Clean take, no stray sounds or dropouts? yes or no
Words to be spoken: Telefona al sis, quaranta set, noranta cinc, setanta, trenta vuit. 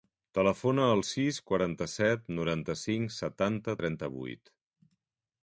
yes